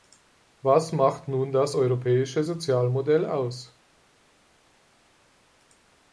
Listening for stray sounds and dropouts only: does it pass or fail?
pass